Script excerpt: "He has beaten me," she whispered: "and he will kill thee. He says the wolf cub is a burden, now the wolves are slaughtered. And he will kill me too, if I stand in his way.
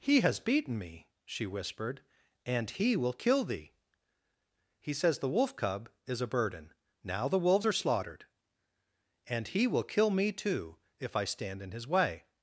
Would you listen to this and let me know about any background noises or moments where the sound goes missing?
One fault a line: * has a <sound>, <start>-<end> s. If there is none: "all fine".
all fine